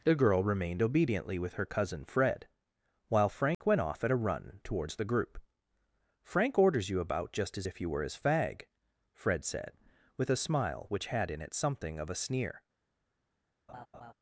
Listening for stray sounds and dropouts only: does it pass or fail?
fail